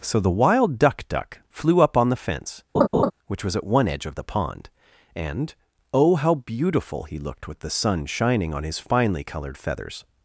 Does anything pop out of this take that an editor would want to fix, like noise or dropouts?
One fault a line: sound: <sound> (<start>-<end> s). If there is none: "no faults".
sound: laugh (2.7-3.1 s)